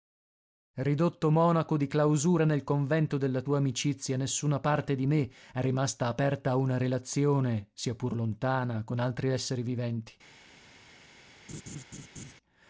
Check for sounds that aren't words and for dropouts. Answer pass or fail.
fail